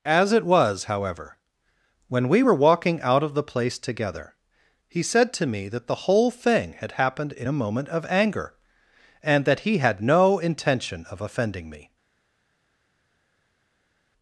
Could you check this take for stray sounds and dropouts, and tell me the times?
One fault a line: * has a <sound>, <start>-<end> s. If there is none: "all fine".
all fine